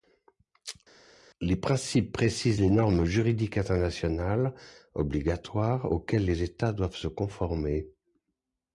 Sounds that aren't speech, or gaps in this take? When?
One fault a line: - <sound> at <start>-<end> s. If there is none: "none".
none